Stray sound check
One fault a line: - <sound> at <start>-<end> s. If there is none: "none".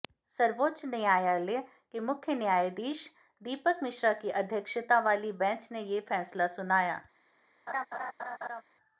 - laugh at 7.7-8.6 s